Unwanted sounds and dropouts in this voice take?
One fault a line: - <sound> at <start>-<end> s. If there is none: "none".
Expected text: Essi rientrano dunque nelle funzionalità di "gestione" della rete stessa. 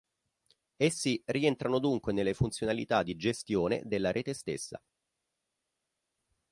none